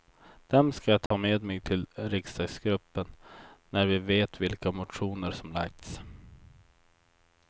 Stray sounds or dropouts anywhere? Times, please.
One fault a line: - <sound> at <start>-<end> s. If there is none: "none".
- dropout at 1.1-1.1 s